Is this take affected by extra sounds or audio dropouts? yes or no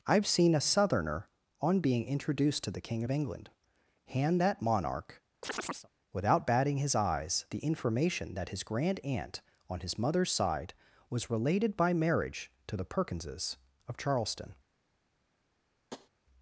yes